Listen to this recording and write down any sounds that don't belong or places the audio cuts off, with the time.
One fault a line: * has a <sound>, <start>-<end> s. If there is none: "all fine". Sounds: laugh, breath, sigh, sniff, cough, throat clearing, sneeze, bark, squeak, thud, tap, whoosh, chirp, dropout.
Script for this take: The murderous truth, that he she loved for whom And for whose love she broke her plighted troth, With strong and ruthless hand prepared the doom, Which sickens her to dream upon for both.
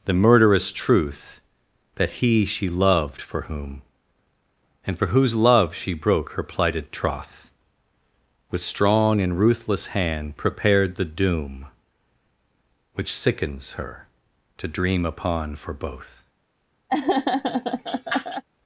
* has a laugh, 16.9-18.4 s